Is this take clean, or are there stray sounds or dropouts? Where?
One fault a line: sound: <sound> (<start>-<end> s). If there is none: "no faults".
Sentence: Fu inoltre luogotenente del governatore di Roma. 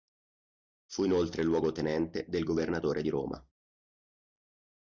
no faults